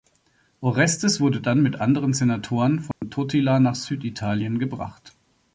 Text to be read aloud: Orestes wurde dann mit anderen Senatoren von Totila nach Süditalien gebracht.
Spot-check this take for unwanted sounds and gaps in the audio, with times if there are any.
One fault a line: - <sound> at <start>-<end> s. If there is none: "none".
- dropout at 2.9-3.0 s